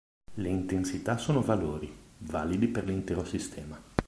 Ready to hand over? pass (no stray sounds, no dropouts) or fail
pass